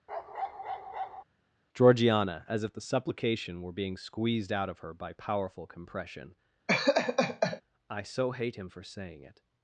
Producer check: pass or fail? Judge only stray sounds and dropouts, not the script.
fail